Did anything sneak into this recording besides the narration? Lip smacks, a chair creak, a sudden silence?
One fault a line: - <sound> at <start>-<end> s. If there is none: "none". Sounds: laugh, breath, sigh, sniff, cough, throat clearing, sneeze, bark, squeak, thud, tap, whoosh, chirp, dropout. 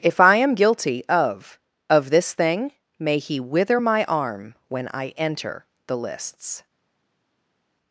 none